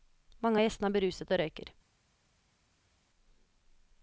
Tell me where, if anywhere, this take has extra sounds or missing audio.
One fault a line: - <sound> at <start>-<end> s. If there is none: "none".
none